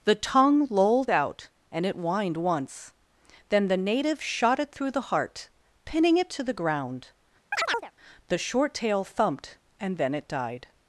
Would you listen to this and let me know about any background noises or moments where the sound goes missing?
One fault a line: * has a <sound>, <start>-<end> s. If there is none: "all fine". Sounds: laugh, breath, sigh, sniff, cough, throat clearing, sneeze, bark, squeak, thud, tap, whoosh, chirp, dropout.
* has a chirp, 7.5-7.9 s